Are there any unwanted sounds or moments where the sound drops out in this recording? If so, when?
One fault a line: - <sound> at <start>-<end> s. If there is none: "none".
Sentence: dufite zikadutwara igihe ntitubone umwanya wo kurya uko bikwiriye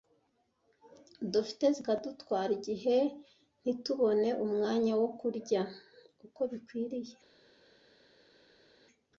none